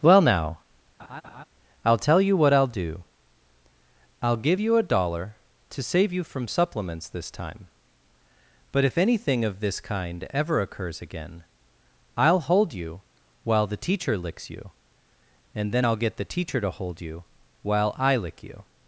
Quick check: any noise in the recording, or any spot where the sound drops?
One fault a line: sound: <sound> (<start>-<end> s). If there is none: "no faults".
sound: laugh (1.0-1.4 s)